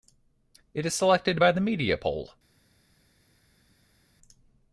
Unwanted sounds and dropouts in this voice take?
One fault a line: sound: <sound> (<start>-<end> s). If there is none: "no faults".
no faults